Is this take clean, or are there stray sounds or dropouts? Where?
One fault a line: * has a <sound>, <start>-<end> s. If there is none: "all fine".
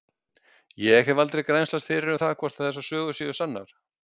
all fine